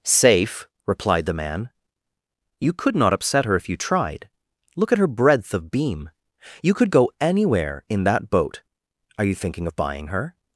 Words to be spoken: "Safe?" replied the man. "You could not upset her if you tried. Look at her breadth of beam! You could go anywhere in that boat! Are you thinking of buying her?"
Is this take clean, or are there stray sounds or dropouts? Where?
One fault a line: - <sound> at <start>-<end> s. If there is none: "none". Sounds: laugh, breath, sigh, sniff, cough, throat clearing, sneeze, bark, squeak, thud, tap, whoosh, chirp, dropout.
none